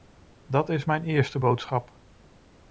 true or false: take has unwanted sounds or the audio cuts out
false